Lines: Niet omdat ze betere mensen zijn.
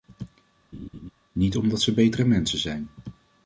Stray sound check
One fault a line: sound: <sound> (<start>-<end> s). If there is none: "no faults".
sound: laugh (0.7-1.1 s)